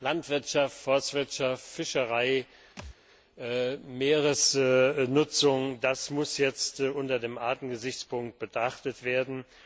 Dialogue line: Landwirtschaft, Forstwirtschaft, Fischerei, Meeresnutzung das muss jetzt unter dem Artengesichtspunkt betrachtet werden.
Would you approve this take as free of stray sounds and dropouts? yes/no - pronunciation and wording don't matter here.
no